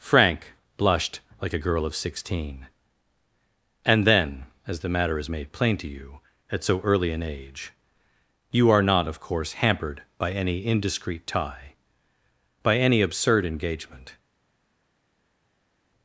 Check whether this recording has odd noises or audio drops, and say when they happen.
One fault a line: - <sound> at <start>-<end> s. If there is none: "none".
none